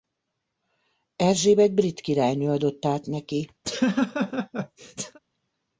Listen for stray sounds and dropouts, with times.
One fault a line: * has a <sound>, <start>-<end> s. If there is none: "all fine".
* has a laugh, 3.6-5.2 s